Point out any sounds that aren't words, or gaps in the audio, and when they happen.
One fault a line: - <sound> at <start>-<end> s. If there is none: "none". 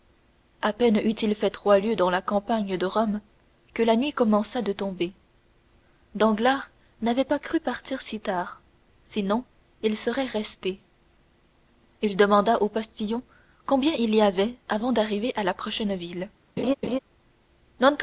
- laugh at 16.6-17.0 s